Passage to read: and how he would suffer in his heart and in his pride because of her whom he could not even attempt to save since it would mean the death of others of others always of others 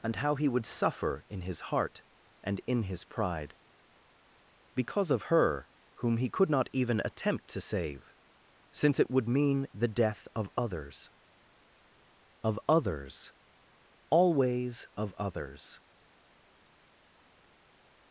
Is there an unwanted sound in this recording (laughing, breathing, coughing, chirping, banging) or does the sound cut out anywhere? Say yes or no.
no